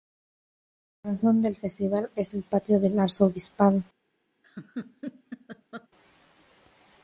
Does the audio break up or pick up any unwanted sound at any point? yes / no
yes